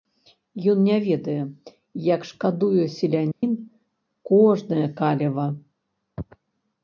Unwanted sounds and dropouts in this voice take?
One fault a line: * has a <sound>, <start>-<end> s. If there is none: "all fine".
* has a dropout, 3.3-3.4 s